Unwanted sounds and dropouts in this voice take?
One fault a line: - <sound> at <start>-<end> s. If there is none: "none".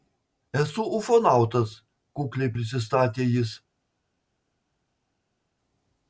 none